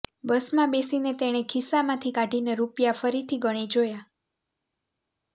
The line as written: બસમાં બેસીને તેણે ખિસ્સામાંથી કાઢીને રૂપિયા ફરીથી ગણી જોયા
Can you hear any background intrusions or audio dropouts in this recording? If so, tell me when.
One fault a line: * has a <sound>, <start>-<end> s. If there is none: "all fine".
all fine